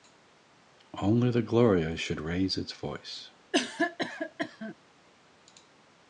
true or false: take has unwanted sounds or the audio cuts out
true